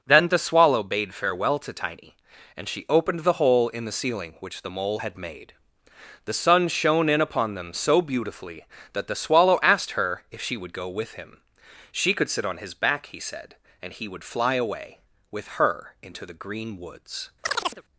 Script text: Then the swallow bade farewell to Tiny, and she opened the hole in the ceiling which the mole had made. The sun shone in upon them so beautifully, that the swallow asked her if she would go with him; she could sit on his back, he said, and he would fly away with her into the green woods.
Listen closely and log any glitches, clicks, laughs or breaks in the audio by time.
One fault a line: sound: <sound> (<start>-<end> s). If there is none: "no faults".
sound: chirp (17.4-17.8 s)